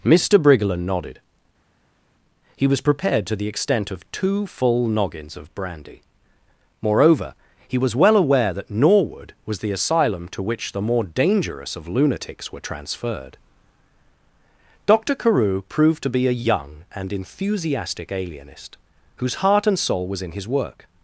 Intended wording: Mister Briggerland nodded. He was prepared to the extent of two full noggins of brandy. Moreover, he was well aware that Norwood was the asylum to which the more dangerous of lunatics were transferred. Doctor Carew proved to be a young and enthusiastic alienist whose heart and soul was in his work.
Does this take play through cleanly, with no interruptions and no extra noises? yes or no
yes